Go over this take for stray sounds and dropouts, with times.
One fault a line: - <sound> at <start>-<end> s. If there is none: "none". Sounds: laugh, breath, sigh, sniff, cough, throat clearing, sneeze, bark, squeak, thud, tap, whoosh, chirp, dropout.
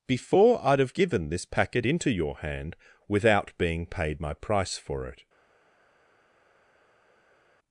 none